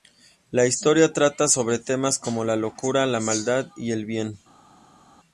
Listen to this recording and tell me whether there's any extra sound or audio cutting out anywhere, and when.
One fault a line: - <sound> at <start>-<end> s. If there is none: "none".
none